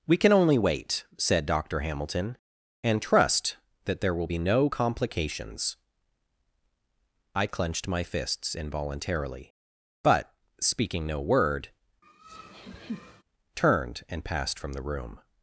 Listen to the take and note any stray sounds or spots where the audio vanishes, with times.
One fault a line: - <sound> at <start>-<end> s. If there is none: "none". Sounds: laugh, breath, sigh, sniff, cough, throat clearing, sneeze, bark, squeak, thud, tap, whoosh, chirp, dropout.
- laugh at 12.0-13.2 s